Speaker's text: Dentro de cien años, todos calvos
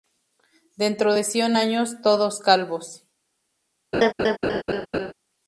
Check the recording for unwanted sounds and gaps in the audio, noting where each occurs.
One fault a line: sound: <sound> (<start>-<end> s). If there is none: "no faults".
sound: laugh (3.9-5.1 s)